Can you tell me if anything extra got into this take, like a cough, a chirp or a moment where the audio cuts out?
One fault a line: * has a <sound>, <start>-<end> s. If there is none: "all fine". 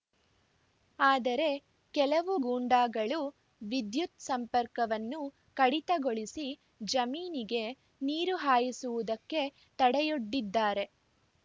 all fine